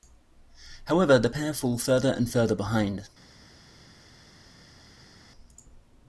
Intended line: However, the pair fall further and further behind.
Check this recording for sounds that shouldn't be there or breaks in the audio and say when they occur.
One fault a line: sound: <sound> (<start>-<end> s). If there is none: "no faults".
no faults